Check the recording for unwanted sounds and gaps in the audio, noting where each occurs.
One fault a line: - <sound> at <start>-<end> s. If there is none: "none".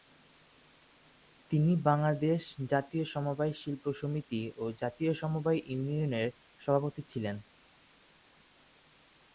none